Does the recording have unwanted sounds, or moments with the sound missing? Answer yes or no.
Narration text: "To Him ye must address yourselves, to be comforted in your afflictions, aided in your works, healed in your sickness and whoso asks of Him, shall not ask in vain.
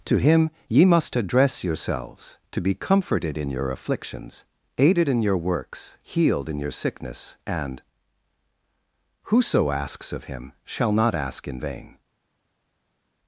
no